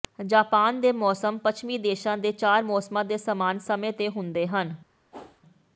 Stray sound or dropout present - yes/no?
yes